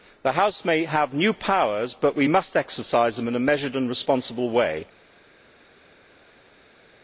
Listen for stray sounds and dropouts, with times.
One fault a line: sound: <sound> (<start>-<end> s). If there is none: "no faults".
no faults